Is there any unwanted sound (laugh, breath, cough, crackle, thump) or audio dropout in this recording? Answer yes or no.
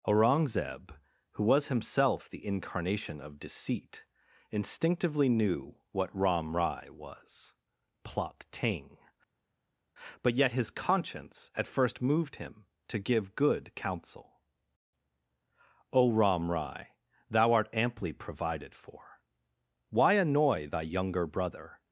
no